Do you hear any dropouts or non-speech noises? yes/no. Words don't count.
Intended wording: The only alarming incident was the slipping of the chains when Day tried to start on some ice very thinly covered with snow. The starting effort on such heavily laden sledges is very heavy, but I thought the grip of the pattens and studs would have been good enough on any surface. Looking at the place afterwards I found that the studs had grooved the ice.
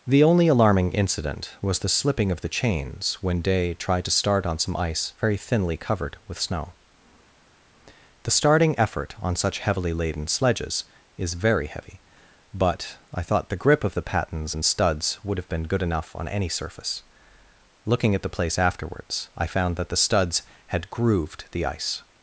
no